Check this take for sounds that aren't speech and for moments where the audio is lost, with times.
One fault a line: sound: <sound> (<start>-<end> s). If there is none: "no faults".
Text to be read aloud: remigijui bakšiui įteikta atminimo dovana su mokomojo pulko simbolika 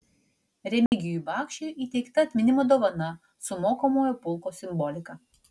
sound: dropout (0.9-0.9 s)